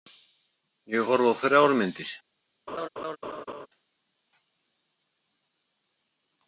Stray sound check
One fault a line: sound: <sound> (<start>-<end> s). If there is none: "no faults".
sound: laugh (2.7-3.7 s)